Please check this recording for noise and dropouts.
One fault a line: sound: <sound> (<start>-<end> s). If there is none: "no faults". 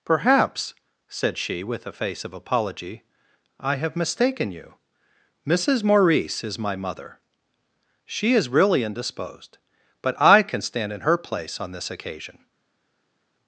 no faults